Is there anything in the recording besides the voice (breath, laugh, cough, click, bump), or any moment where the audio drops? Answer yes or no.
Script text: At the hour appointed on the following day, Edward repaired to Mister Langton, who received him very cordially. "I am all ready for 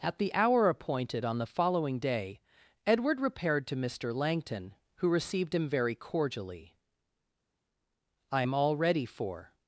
no